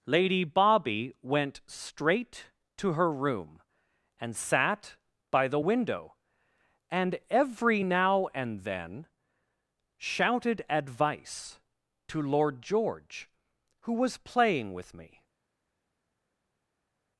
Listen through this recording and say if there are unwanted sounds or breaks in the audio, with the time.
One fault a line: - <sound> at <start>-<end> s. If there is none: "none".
none